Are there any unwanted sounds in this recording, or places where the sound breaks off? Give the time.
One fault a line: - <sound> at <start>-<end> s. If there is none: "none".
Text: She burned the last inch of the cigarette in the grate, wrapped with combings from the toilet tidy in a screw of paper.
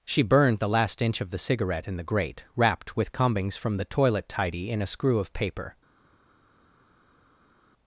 none